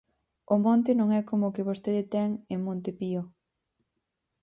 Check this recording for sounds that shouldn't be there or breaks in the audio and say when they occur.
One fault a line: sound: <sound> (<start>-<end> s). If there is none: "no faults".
no faults